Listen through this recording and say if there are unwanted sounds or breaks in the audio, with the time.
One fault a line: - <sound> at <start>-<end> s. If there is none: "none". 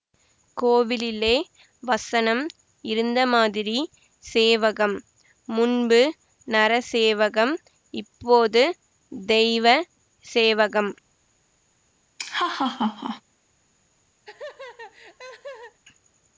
- laugh at 12.2-13.2 s
- laugh at 14.2-15.8 s